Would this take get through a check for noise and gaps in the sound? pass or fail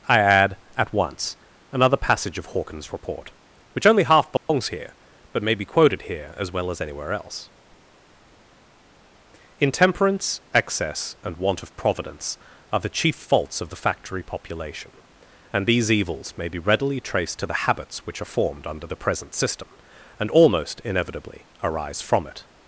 fail